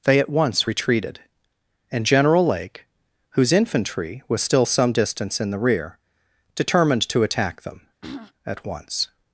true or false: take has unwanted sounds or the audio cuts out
true